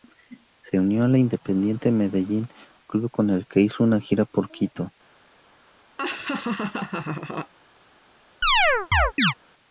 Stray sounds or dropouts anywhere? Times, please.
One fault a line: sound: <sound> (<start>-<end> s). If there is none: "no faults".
sound: laugh (6.0-7.5 s)
sound: chirp (8.4-9.3 s)